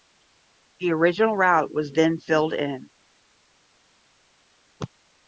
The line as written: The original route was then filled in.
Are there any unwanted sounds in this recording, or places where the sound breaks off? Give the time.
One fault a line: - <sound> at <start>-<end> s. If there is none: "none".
none